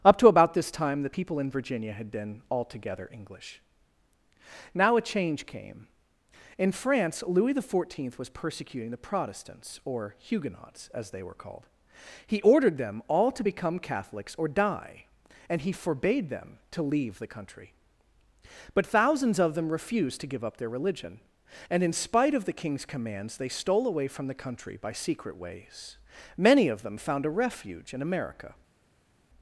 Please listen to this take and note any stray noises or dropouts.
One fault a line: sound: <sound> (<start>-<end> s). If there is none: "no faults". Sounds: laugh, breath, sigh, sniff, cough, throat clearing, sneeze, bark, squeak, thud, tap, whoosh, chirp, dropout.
no faults